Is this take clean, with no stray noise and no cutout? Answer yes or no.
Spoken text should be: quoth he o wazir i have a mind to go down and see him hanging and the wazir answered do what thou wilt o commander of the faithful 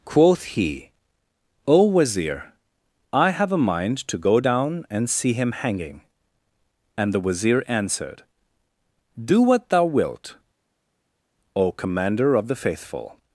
yes